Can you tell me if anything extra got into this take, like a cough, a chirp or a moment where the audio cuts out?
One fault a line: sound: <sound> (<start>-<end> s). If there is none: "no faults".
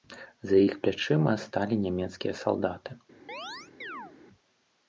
sound: chirp (3.3-4.1 s)